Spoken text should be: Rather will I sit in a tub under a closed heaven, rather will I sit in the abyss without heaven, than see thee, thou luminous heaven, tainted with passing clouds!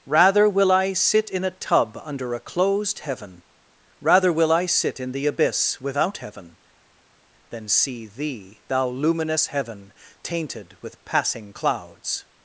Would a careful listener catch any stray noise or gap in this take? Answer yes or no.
no